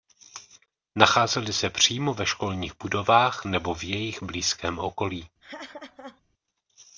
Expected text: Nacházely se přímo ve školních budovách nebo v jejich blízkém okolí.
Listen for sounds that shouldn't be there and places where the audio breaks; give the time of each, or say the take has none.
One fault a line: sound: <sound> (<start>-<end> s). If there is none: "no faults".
sound: laugh (5.4-6.2 s)